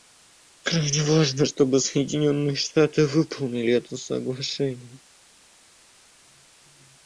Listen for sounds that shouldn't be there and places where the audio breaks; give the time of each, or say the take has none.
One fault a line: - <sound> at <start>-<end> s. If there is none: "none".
none